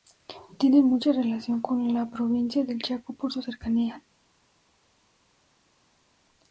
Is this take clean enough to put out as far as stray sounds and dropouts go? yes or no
yes